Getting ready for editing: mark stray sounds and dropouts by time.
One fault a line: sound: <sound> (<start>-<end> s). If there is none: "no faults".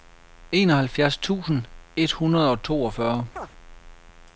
sound: chirp (3.4-3.5 s)